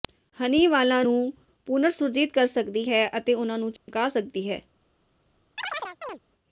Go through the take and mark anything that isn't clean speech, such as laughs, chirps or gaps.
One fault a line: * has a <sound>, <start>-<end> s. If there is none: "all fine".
* has a dropout, 3.8-3.9 s
* has a chirp, 5.6-6.2 s